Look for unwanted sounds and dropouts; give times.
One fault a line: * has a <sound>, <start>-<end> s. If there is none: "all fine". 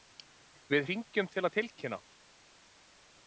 all fine